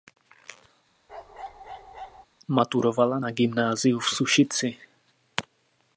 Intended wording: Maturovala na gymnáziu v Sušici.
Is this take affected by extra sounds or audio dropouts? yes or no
yes